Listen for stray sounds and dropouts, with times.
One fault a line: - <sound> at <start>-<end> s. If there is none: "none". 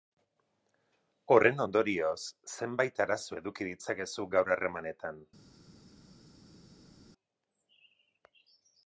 none